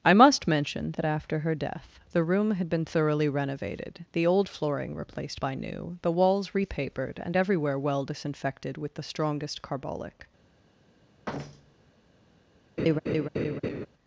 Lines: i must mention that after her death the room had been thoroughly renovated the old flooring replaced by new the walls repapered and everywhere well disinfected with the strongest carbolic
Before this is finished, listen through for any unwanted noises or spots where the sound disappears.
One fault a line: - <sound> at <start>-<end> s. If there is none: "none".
- thud at 11.3-11.9 s
- laugh at 12.8-13.9 s